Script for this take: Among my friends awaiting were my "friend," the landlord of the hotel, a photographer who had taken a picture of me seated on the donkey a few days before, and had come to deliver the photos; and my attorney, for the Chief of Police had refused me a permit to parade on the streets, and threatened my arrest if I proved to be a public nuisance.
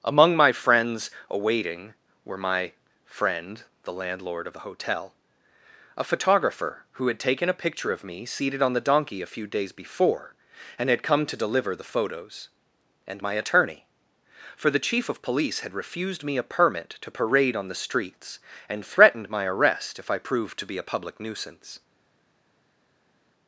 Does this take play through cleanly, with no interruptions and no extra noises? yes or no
yes